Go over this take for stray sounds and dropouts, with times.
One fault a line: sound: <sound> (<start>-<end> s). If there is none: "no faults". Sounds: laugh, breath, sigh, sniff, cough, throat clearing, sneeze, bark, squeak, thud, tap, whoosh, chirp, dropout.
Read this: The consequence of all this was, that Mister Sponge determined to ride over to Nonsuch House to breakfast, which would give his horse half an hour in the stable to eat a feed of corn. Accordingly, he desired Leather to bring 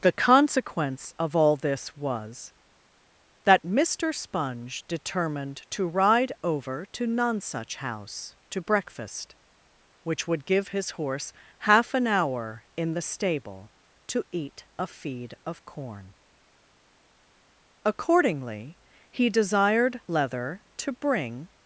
no faults